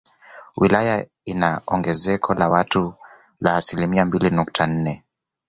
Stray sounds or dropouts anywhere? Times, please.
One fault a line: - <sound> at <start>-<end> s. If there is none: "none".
none